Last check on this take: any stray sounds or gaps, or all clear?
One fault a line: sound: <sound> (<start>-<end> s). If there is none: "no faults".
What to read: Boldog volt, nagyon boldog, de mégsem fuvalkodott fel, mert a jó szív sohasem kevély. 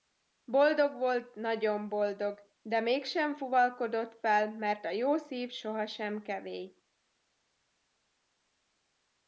no faults